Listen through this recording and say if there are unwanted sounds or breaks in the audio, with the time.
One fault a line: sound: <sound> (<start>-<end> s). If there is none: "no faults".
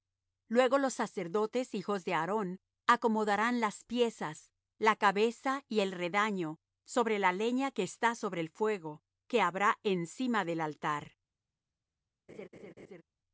sound: laugh (12.3-13.0 s)